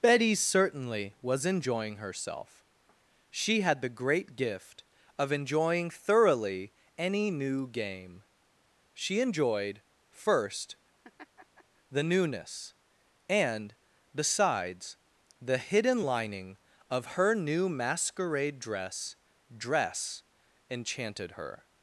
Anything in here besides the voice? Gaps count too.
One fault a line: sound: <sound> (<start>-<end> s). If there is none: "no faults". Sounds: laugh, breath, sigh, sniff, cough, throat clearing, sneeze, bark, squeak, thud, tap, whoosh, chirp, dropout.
sound: laugh (11.0-11.6 s)